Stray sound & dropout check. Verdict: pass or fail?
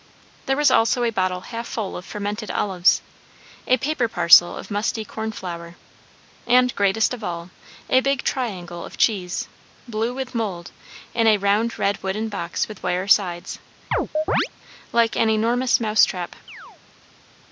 fail